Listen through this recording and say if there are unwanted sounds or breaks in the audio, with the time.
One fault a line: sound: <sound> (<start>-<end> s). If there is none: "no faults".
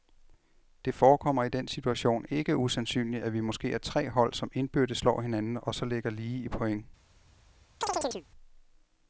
sound: chirp (7.8-8.3 s)